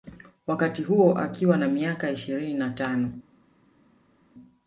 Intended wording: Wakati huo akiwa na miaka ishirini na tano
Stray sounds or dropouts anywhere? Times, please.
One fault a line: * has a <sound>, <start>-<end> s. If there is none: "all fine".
all fine